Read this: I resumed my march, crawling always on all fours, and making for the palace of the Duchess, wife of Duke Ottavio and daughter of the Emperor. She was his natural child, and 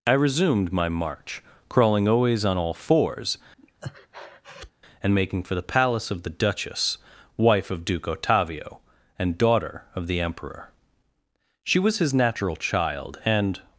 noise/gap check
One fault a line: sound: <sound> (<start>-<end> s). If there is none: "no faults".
sound: breath (3.6-4.7 s)